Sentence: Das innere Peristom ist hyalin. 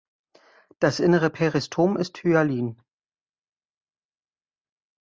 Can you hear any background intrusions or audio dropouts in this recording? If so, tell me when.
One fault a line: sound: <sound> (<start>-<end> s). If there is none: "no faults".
no faults